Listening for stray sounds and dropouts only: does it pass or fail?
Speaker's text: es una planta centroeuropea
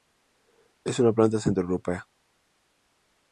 pass